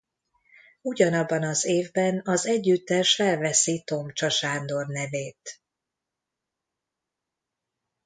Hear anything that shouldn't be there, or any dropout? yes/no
no